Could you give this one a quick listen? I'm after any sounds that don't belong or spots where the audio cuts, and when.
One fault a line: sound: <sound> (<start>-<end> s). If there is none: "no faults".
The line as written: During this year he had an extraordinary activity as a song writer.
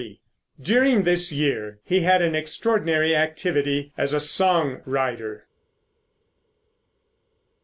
no faults